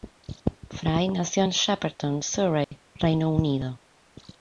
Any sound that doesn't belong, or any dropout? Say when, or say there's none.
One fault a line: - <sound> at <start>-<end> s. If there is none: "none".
- dropout at 2.6-2.7 s